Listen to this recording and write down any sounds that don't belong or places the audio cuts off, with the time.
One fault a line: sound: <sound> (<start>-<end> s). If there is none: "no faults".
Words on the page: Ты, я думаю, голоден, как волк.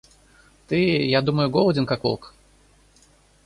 no faults